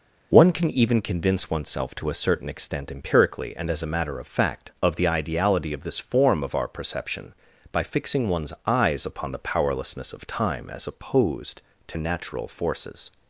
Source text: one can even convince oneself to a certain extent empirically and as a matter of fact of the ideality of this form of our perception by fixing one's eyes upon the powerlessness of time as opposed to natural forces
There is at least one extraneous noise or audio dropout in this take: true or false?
false